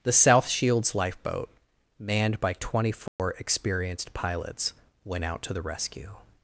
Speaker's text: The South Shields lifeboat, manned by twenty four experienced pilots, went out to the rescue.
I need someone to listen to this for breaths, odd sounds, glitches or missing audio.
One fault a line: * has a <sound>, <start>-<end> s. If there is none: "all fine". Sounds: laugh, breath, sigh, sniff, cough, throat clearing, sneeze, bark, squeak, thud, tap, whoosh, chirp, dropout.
* has a dropout, 3.1-3.2 s